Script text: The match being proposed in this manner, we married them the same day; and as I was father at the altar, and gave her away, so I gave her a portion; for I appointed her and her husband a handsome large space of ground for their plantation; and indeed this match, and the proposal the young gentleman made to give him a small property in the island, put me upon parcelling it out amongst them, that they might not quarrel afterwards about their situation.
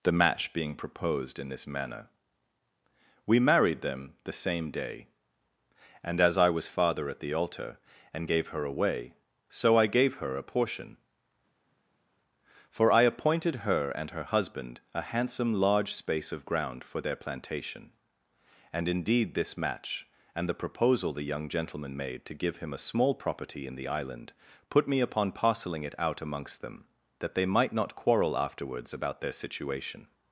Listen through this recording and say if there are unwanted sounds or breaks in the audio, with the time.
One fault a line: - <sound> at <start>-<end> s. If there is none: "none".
none